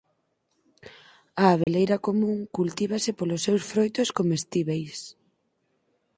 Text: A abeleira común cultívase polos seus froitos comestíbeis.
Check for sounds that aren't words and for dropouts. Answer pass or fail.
fail